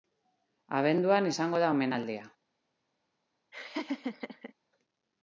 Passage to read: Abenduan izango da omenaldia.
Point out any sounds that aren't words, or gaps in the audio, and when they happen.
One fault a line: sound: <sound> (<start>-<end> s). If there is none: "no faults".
sound: laugh (3.5-4.5 s)